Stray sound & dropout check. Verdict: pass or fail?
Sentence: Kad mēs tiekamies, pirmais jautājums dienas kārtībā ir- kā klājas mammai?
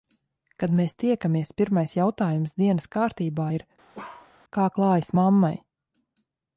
fail